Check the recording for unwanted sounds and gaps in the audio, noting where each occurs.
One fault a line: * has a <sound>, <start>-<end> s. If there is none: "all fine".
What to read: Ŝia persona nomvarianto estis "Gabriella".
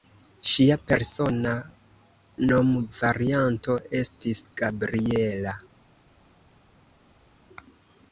all fine